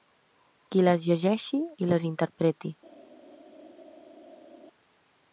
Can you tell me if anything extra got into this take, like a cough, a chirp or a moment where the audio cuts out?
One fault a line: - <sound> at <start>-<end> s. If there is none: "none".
none